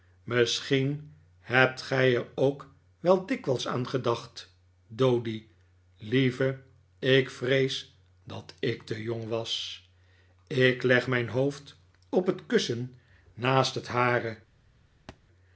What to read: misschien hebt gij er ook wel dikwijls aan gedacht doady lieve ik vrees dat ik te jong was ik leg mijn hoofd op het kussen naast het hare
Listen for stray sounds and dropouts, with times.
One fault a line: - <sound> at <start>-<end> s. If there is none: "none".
- thud at 15.1-15.2 s